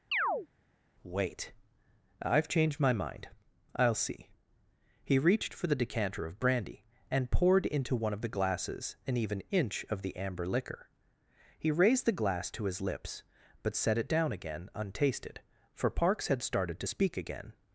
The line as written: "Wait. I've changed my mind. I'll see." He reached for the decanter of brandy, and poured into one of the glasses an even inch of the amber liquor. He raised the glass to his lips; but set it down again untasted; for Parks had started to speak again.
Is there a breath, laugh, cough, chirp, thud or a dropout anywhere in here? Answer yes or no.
yes